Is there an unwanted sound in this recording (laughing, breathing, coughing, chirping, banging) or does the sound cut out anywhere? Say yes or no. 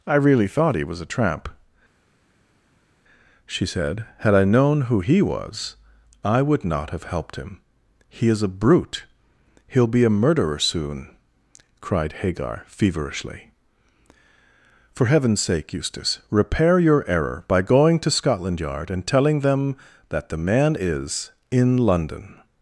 no